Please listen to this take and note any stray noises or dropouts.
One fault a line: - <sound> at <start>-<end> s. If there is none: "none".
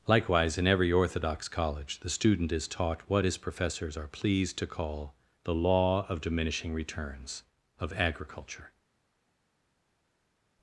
none